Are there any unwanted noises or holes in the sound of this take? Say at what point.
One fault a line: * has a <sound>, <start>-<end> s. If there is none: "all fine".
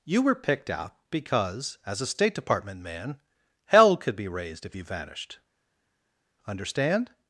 all fine